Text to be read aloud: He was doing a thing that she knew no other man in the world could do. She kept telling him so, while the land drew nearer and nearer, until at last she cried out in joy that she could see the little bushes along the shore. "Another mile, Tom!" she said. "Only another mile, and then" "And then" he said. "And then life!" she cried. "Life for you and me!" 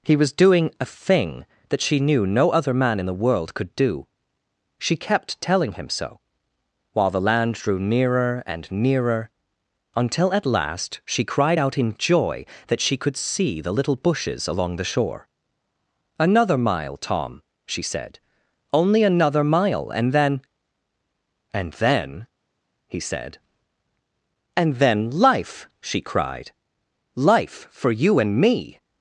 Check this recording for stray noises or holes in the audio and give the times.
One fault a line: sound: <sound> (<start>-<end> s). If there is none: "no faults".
no faults